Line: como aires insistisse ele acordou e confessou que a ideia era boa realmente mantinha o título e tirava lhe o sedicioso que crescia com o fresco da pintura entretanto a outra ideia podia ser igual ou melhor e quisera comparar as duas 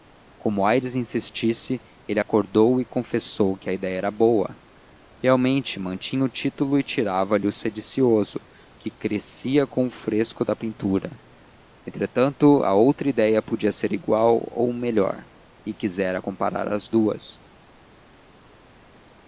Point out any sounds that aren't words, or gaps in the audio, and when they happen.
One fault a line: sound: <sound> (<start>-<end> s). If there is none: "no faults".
no faults